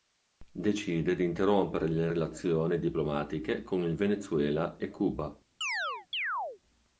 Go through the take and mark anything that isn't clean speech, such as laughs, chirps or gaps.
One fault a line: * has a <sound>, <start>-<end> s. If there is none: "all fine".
* has a chirp, 5.6-6.6 s